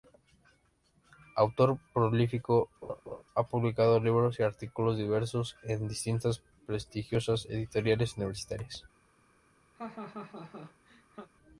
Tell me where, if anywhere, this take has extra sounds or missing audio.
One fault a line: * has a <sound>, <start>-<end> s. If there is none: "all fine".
* has a laugh, 2.8-3.2 s
* has a laugh, 9.8-11.3 s